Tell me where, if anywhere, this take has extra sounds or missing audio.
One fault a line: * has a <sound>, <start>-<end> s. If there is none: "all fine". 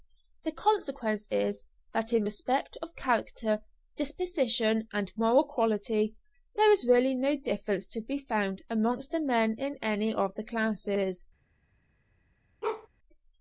* has a bark, 12.6-12.9 s